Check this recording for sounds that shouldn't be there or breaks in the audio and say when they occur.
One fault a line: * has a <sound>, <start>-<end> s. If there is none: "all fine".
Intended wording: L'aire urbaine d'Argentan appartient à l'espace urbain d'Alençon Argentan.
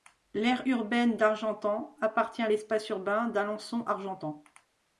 all fine